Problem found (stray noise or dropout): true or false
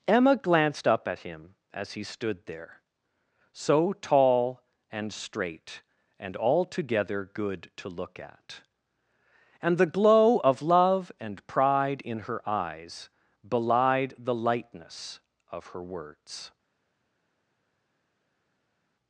false